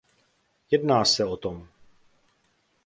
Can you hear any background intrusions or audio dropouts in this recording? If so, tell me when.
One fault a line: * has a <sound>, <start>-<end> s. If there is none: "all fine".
all fine